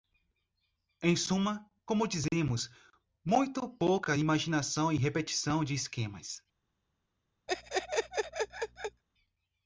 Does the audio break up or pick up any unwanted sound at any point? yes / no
yes